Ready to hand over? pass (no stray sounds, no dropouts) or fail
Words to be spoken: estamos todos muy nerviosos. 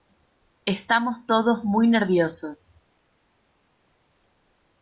pass